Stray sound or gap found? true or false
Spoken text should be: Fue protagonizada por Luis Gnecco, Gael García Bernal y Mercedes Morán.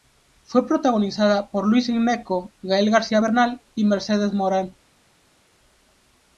false